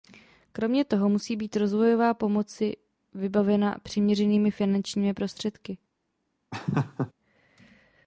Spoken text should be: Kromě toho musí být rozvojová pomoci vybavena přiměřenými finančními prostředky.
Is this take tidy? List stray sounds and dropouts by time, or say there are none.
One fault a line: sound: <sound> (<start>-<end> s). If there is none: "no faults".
sound: laugh (6.5-7.1 s)